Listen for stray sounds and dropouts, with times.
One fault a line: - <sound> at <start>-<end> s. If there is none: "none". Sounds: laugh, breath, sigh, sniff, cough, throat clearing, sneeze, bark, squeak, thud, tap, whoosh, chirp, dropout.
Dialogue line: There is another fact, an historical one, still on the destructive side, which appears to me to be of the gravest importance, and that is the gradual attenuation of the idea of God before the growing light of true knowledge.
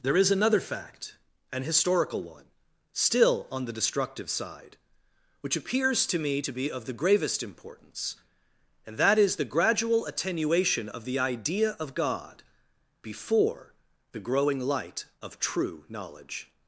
none